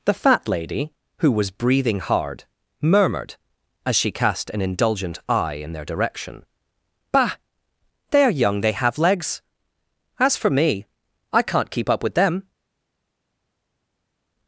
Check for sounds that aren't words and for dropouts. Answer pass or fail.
pass